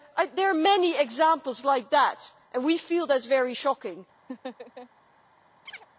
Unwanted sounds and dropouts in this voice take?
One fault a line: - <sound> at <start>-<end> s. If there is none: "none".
- laugh at 4.3-4.9 s
- chirp at 5.7-5.9 s